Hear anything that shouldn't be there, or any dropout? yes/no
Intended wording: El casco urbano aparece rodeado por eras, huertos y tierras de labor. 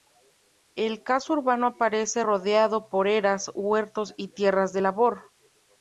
no